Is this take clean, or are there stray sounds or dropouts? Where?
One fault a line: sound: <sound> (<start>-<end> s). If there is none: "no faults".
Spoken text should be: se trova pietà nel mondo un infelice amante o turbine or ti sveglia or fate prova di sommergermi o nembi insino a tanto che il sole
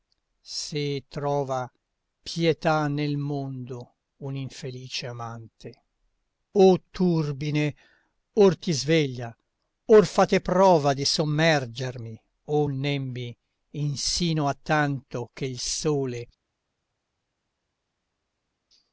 no faults